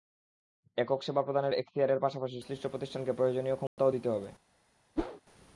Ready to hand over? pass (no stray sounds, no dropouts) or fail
fail